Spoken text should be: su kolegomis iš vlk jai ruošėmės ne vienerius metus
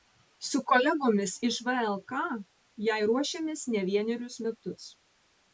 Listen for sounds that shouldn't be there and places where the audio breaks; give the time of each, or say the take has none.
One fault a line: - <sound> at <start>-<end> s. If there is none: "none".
none